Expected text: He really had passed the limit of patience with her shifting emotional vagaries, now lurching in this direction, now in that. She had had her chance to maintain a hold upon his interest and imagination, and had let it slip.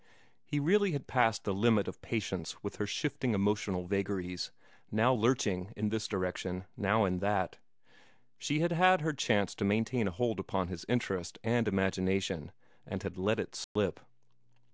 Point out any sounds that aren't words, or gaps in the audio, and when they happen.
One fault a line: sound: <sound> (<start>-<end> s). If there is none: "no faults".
sound: dropout (13.6-13.8 s)